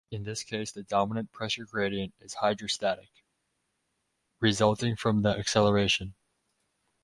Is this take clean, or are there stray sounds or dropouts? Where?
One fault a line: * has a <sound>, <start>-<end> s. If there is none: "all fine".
all fine